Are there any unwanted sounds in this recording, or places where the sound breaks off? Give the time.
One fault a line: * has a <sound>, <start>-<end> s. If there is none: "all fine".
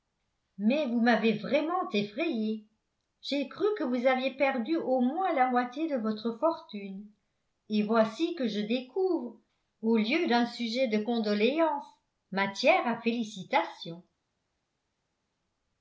all fine